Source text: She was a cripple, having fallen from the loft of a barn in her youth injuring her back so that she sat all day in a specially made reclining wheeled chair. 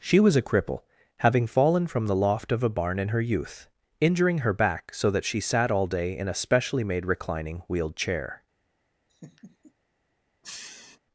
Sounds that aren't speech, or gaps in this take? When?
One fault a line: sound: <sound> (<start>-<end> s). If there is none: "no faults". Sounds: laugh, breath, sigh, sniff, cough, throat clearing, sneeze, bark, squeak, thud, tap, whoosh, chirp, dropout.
sound: laugh (9.1-9.7 s)
sound: sniff (10.4-11.0 s)